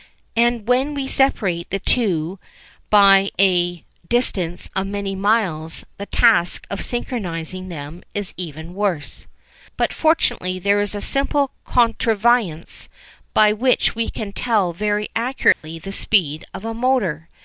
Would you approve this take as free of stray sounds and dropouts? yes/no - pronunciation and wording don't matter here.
no